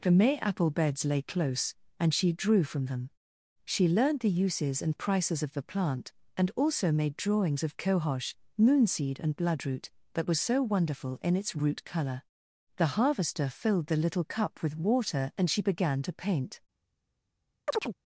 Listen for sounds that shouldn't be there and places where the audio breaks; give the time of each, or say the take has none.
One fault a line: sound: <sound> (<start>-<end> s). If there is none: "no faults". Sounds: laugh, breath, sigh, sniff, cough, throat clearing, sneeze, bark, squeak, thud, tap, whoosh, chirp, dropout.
sound: chirp (17.7-18.0 s)